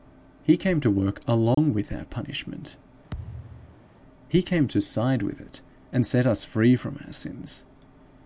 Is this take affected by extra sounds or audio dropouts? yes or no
yes